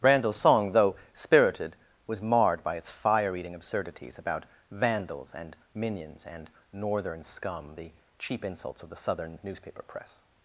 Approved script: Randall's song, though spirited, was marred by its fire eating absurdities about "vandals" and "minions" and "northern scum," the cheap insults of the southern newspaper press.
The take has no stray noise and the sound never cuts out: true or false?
true